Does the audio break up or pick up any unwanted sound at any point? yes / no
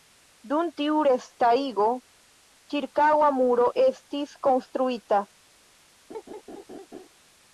yes